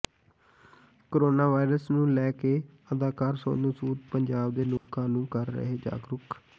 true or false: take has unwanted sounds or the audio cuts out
true